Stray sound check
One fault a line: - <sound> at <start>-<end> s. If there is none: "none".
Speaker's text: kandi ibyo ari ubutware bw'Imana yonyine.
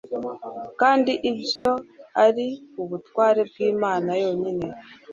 - dropout at 1.6-1.7 s